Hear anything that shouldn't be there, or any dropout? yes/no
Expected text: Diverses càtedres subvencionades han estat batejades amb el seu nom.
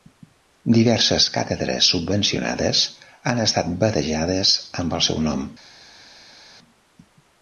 no